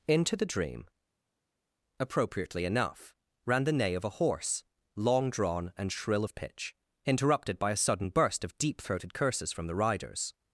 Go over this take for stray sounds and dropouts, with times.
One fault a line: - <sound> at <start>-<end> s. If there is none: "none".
none